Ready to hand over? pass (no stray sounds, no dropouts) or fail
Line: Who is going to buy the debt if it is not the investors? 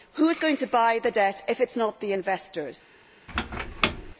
fail